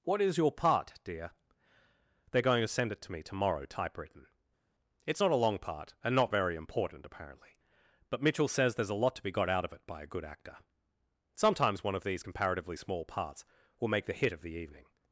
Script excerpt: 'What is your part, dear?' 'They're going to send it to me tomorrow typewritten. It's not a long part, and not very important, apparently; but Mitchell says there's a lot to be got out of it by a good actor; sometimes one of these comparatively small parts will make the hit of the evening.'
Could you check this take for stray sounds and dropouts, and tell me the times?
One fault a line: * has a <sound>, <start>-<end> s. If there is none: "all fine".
all fine